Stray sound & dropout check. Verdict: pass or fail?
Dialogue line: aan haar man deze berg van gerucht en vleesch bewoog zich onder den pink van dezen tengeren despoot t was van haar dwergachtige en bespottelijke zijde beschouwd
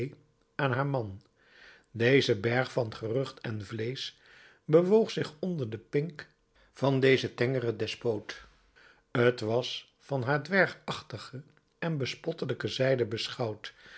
pass